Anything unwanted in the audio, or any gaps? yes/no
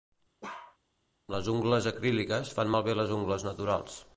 yes